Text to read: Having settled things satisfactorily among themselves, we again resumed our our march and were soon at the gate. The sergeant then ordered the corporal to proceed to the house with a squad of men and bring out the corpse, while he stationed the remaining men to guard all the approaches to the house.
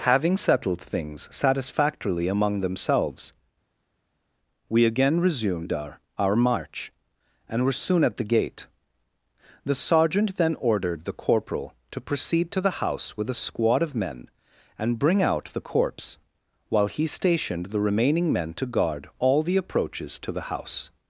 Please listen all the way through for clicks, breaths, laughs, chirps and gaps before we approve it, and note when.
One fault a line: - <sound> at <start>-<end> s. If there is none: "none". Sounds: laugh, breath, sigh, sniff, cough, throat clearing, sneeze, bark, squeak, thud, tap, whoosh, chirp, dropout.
none